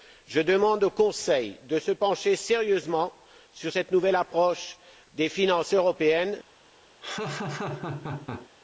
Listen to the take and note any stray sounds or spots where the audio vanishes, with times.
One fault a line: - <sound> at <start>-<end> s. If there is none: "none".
- laugh at 7.0-8.5 s